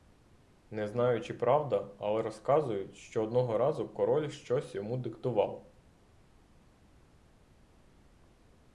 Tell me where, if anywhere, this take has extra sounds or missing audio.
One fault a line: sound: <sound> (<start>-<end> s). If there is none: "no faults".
no faults